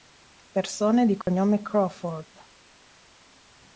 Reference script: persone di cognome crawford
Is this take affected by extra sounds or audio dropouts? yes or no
yes